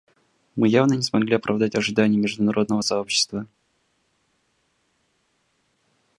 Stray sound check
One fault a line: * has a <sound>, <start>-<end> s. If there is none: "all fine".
all fine